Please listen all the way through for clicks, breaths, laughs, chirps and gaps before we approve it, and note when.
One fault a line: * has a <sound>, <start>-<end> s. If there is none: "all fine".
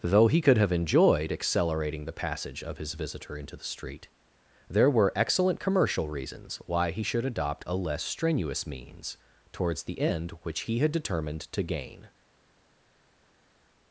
all fine